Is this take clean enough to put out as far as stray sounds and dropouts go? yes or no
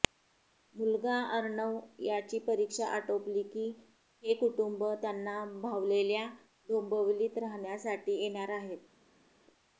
yes